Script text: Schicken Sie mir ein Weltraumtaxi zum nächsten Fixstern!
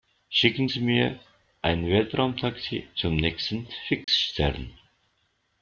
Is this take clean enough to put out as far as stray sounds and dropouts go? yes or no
no